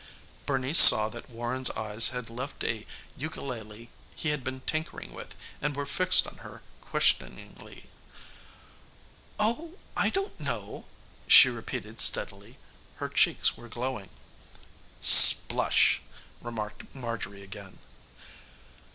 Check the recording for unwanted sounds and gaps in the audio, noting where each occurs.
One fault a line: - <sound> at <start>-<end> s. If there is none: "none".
none